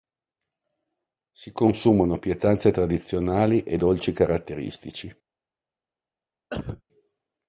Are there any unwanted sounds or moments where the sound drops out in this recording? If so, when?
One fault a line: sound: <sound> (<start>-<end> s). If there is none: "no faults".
sound: cough (6.5-6.8 s)